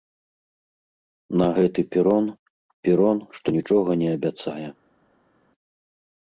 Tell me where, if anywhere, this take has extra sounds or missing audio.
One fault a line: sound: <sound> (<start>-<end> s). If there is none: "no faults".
no faults